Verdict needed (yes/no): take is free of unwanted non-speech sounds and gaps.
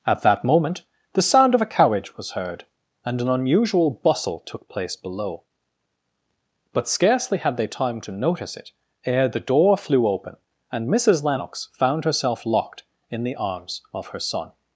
yes